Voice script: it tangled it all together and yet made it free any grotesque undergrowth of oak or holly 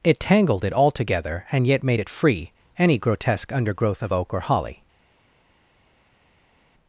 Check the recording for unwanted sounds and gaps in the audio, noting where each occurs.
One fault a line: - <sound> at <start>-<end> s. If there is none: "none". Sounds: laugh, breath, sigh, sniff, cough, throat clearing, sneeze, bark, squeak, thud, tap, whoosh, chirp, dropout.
none